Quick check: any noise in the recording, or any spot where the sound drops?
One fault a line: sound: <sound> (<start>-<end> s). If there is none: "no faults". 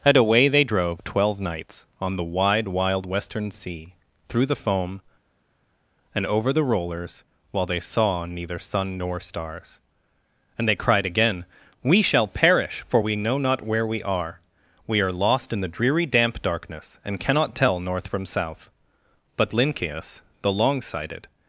no faults